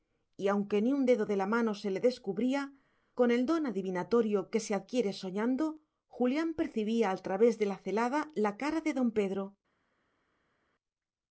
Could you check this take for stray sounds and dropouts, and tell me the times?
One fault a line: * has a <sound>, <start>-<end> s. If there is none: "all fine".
all fine